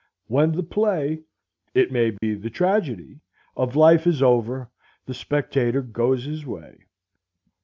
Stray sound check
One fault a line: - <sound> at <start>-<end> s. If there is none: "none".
- dropout at 2.2-2.2 s